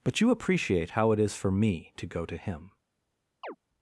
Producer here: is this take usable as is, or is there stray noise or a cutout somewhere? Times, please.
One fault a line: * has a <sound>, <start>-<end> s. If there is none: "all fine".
* has a chirp, 3.4-3.6 s